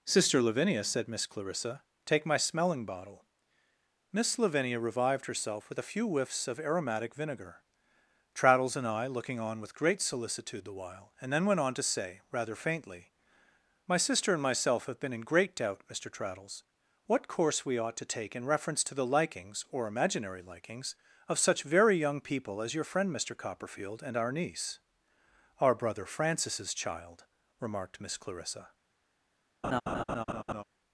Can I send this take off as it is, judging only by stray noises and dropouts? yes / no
no